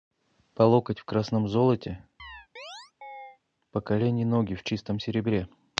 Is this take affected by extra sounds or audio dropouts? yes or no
yes